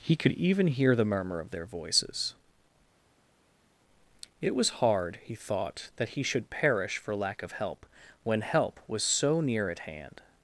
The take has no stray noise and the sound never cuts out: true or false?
true